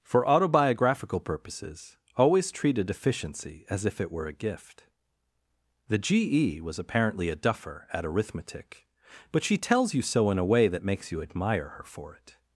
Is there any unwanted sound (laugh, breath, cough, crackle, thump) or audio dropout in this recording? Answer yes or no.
no